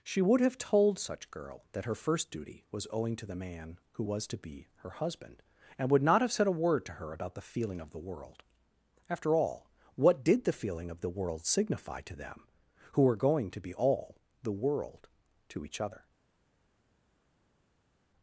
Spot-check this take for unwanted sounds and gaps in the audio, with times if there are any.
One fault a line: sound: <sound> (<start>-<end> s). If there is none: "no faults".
no faults